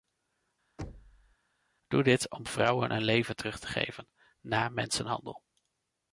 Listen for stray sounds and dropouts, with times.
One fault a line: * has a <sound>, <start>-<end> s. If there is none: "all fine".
* has a thud, 0.8-1.4 s